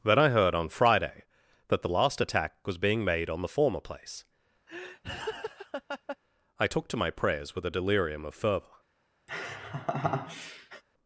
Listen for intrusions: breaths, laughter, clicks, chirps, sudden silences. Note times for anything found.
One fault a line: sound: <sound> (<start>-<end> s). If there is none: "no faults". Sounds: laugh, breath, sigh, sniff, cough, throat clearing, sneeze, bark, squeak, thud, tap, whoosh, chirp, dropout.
sound: laugh (4.7-6.2 s)
sound: laugh (9.3-10.8 s)